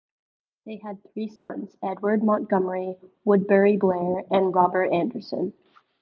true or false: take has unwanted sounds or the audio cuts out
true